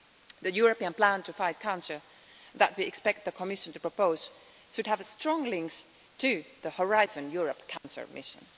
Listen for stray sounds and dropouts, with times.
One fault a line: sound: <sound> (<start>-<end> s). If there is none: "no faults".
sound: dropout (7.8-7.8 s)